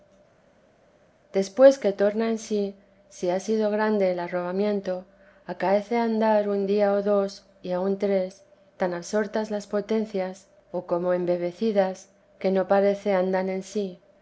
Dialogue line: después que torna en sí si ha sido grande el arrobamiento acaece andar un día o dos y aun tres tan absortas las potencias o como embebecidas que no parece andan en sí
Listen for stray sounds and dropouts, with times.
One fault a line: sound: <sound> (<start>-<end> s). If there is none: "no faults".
no faults